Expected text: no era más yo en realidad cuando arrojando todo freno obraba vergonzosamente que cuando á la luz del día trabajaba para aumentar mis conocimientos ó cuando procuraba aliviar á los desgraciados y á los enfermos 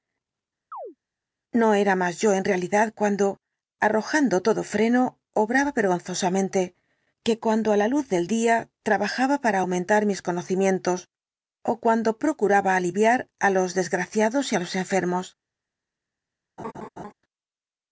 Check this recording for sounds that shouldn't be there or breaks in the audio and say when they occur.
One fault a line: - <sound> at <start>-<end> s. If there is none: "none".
- chirp at 0.7-1.0 s
- laugh at 16.6-17.1 s